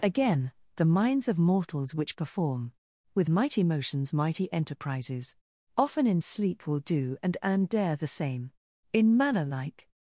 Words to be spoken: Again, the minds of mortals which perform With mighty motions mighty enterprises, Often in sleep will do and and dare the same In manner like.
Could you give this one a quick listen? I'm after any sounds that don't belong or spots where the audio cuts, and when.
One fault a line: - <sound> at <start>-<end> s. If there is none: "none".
none